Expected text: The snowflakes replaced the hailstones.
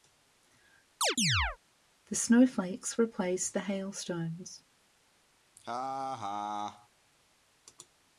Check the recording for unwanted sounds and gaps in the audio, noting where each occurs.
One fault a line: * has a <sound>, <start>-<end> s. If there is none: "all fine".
* has a chirp, 1.0-1.6 s
* has a laugh, 5.6-6.9 s